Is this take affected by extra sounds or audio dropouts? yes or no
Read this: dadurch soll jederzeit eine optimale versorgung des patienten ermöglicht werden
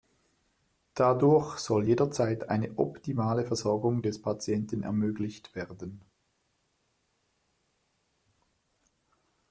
no